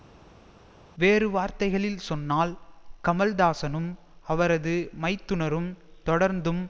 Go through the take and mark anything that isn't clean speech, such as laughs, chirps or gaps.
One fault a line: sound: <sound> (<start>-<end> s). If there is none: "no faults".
no faults